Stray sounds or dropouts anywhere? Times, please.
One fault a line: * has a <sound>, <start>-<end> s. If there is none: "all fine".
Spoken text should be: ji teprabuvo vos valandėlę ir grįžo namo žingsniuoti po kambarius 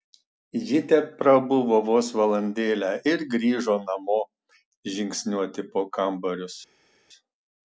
all fine